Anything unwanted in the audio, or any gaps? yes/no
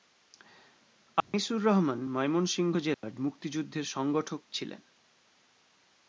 yes